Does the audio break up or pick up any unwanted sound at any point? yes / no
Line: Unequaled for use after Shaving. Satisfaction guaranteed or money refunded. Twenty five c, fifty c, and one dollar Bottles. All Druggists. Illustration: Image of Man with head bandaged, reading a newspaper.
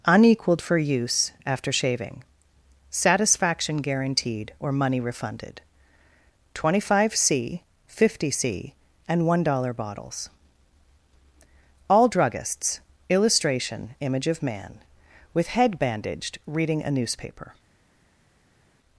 no